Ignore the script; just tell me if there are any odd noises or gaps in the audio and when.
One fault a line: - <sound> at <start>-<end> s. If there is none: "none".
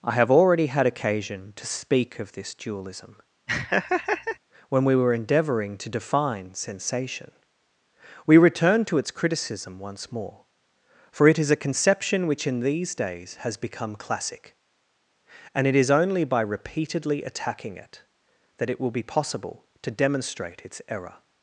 - laugh at 3.5-4.4 s